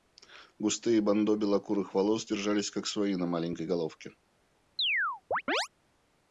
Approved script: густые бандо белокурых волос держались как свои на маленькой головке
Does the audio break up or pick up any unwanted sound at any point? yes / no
yes